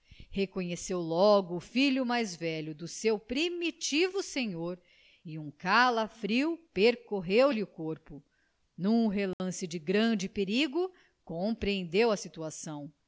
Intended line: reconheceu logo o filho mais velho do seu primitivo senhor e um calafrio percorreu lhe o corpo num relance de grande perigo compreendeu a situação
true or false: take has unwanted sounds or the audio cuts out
true